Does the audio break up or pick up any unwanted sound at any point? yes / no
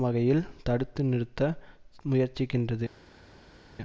no